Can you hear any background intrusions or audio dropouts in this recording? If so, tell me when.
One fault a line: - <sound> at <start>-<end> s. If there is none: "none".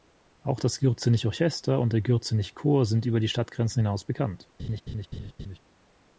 - laugh at 4.6-5.6 s